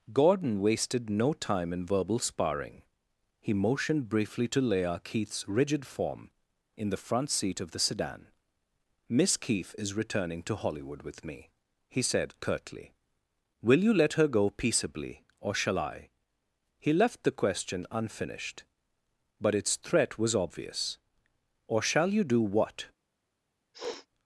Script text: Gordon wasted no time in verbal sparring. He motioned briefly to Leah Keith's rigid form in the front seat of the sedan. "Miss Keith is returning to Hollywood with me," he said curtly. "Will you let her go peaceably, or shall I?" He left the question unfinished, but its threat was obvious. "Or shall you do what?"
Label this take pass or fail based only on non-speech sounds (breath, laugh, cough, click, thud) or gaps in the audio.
fail